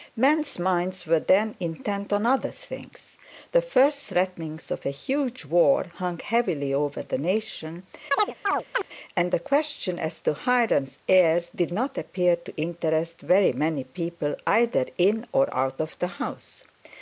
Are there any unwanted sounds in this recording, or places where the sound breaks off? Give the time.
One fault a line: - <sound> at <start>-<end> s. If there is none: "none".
- chirp at 8.1-8.9 s